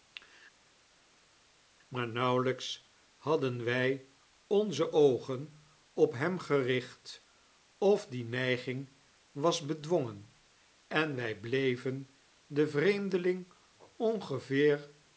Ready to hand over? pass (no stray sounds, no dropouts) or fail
pass